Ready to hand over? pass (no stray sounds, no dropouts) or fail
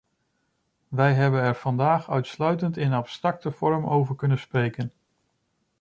pass